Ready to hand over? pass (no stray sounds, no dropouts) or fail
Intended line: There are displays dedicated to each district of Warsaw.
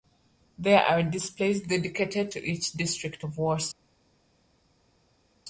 pass